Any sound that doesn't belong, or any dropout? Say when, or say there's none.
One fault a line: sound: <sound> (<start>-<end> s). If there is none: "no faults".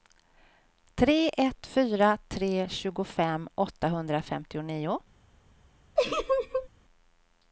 sound: laugh (6.0-6.7 s)